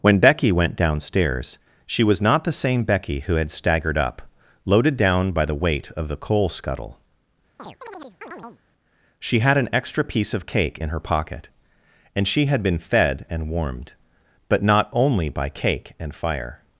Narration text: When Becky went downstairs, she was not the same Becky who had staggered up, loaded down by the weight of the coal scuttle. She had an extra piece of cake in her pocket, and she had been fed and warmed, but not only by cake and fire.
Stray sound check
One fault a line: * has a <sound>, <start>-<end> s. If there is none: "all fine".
* has a chirp, 7.6-8.6 s